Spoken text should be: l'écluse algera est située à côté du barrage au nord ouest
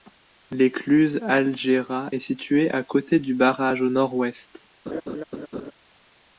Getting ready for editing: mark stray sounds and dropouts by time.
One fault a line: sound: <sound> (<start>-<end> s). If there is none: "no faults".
sound: laugh (4.9-5.7 s)